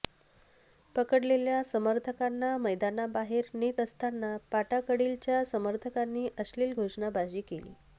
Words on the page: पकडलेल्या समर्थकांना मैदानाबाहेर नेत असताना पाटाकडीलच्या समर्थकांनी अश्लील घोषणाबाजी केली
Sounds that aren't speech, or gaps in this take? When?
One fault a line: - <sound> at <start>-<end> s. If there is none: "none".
none